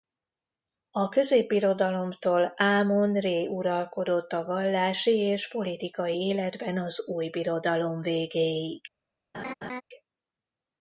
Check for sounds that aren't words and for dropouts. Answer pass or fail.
fail